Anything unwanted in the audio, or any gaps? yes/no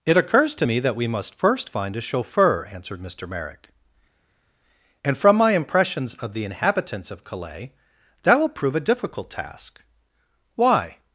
no